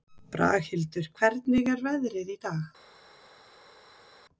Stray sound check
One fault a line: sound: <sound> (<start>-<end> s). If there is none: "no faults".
no faults